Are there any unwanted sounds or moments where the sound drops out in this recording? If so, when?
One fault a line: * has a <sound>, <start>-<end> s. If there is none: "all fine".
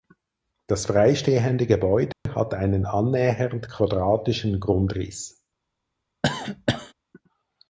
* has a dropout, 2.1-2.3 s
* has a cough, 6.2-6.9 s